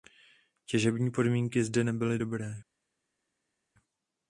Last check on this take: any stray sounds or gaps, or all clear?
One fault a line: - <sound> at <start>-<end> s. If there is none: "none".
none